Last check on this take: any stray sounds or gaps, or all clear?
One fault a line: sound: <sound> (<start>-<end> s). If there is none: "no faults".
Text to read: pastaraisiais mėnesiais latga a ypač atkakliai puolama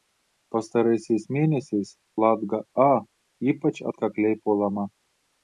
no faults